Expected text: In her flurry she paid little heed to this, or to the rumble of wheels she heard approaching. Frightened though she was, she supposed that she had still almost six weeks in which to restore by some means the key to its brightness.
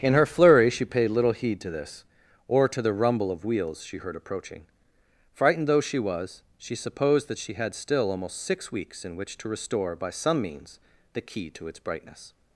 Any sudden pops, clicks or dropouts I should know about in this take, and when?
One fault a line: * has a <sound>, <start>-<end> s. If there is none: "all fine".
all fine